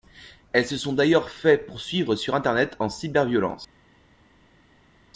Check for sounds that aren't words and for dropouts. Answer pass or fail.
pass